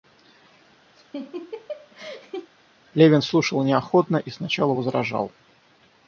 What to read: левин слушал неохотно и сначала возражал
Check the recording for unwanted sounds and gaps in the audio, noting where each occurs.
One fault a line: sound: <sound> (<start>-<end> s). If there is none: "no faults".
sound: laugh (0.9-2.5 s)